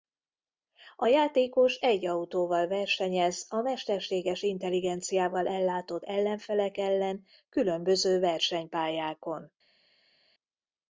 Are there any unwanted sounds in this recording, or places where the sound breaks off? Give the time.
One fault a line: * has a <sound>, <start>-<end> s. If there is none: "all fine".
all fine